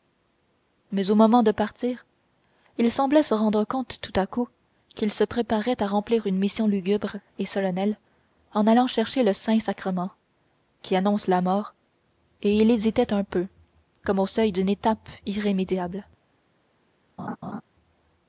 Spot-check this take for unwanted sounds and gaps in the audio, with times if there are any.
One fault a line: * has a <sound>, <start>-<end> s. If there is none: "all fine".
* has a laugh, 17.2-17.6 s